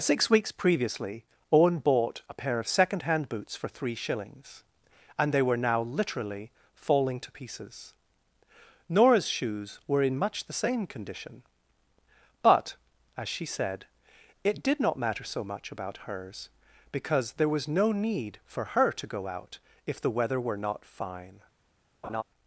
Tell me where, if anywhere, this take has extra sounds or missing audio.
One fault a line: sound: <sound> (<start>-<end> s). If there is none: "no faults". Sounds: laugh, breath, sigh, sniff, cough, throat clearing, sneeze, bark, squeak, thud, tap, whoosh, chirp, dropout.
sound: laugh (22.0-22.2 s)